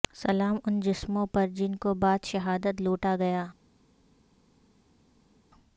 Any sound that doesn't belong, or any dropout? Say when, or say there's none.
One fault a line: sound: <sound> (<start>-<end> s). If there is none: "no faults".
no faults